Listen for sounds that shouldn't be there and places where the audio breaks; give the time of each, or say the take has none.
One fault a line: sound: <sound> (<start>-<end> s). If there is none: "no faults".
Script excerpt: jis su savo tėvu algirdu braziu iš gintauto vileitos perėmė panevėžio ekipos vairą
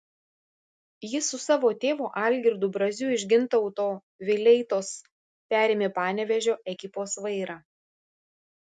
no faults